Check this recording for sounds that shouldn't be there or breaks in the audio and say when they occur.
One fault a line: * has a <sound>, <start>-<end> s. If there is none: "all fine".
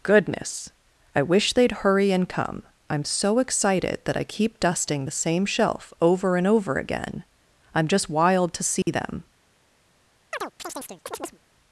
* has a dropout, 8.8-8.9 s
* has a chirp, 10.3-11.4 s